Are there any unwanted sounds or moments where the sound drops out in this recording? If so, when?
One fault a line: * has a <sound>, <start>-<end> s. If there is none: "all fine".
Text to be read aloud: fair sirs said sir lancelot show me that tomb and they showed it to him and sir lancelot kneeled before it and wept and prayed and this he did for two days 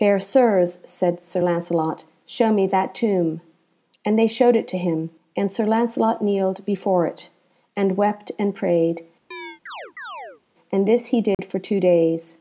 * has a chirp, 9.3-10.4 s
* has a dropout, 11.3-11.4 s